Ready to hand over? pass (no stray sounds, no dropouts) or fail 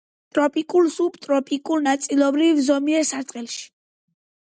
pass